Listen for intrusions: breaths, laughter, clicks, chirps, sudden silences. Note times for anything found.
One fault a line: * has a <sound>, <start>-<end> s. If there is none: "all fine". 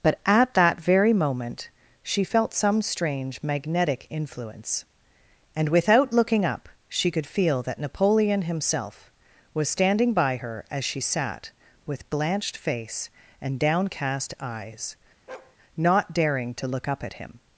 * has a bark, 15.3-15.6 s